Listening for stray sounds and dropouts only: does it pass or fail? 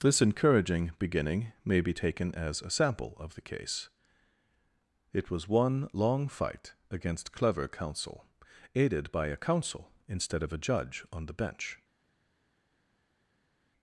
pass